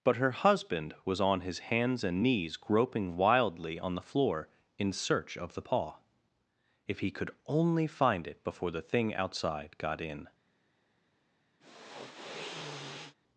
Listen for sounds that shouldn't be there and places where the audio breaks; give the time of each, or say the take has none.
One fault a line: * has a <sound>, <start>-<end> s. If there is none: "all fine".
* has a sniff, 11.6-13.2 s